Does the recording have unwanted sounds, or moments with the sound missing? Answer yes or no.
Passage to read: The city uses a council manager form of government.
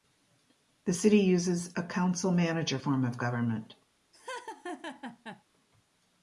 yes